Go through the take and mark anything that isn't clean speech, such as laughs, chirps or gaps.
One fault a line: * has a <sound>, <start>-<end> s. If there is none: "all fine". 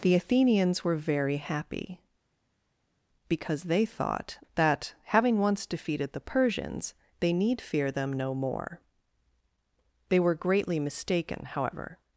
all fine